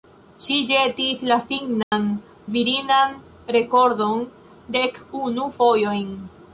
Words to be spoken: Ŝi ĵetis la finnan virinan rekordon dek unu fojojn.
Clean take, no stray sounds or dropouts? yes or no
no